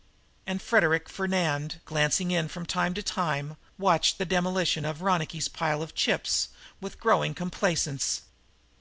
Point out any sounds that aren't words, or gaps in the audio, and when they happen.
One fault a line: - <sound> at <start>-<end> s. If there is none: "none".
none